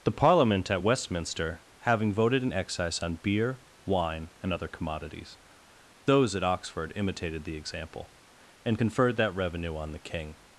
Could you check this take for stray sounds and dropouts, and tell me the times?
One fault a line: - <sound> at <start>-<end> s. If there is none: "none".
none